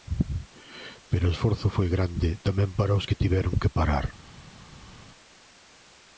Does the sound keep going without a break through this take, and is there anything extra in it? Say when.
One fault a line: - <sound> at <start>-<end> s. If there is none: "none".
none